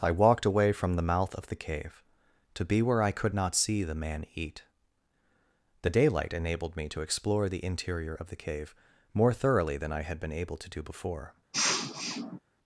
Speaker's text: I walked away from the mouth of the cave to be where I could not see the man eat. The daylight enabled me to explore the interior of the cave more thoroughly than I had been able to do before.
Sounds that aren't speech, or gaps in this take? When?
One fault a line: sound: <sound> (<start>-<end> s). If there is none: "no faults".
sound: sniff (11.5-12.4 s)